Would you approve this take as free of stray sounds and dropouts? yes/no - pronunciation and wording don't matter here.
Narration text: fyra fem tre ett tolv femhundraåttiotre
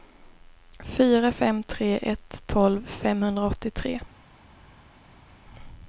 yes